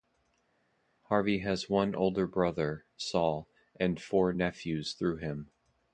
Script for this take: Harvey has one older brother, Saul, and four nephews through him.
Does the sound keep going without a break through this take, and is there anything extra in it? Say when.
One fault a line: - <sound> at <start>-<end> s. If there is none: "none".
none